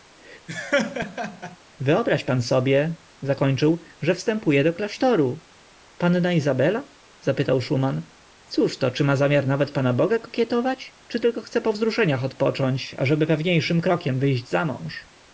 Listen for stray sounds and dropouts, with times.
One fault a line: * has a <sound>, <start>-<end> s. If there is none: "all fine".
* has a laugh, 0.5-1.6 s